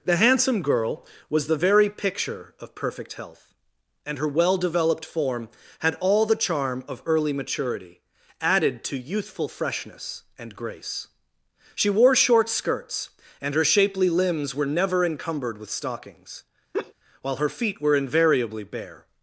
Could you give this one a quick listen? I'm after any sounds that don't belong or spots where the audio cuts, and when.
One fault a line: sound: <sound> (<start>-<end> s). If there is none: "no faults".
sound: laugh (16.7-16.9 s)